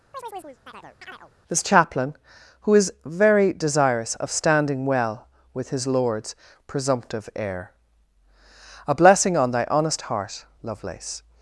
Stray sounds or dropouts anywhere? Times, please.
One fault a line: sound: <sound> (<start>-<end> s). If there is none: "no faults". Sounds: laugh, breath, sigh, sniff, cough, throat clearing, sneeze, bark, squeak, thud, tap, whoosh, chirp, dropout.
sound: chirp (0.1-1.3 s)